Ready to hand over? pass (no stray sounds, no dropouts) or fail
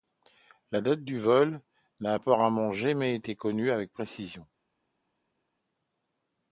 pass